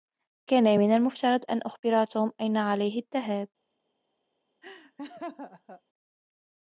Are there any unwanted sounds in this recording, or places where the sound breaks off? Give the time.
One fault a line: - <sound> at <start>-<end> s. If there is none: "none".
- laugh at 4.6-5.8 s